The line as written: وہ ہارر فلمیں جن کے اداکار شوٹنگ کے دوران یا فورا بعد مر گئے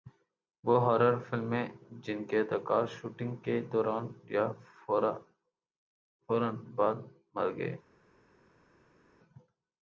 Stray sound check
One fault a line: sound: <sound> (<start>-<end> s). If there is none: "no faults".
no faults